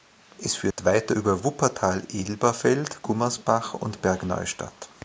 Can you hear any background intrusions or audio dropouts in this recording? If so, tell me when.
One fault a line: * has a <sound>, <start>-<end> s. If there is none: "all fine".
* has a dropout, 0.7-0.8 s